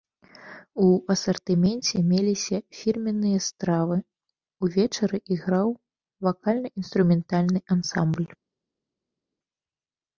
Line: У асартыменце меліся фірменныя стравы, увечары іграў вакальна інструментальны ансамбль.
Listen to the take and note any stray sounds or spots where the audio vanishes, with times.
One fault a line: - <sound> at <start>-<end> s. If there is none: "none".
none